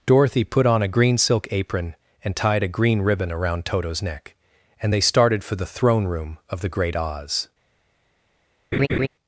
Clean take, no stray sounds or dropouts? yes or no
no